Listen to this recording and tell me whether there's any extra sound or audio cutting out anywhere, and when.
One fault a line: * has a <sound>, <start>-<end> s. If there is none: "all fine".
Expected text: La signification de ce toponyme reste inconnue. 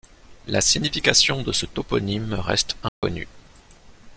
* has a dropout, 2.9-3.0 s